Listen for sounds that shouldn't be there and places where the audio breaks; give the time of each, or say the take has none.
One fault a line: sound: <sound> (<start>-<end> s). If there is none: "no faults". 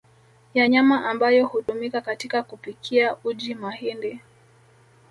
sound: dropout (1.6-1.7 s)